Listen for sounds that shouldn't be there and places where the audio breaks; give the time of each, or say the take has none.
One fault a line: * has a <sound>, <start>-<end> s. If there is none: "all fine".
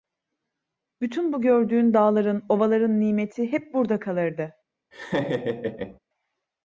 * has a laugh, 4.9-6.0 s